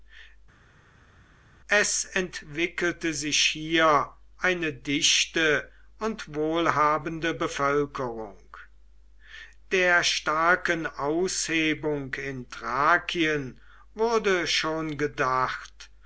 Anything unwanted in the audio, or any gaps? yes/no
no